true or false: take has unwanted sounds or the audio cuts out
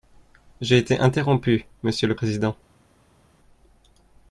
false